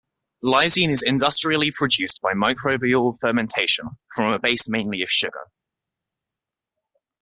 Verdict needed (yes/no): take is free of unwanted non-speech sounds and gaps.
yes